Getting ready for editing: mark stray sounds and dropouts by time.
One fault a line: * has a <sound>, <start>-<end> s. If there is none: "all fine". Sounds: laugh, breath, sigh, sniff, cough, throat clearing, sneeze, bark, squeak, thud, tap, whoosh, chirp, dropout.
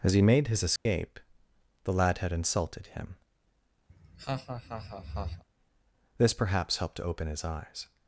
* has a dropout, 0.8-0.9 s
* has a laugh, 3.9-5.4 s